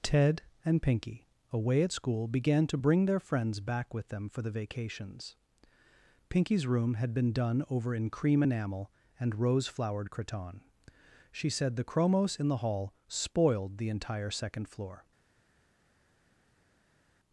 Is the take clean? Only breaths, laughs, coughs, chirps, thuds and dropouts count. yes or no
yes